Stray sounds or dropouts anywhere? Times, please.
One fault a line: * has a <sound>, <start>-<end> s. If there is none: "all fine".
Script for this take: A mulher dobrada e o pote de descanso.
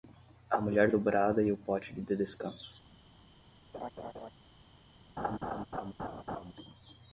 * has a laugh, 3.7-4.3 s
* has a laugh, 5.2-6.5 s